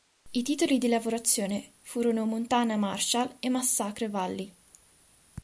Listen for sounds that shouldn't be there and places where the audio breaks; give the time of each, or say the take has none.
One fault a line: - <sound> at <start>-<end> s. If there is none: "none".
none